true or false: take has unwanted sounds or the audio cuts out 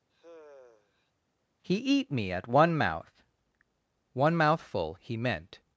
true